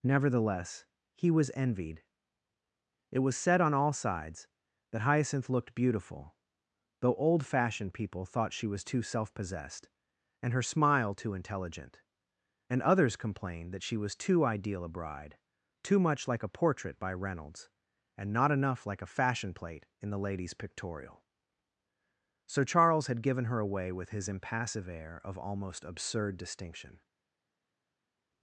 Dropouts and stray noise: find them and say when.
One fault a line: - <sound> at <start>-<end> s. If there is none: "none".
none